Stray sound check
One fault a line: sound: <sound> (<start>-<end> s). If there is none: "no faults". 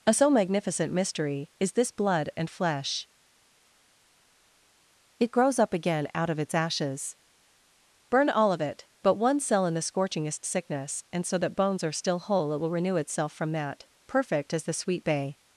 no faults